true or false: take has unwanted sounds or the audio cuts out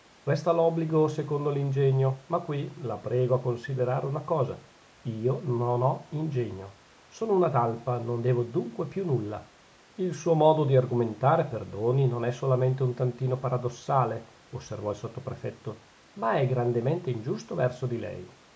false